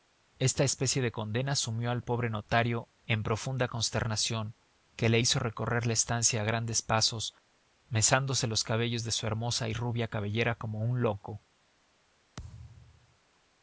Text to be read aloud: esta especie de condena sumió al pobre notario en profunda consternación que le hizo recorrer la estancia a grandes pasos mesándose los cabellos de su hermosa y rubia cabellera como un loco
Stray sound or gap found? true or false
true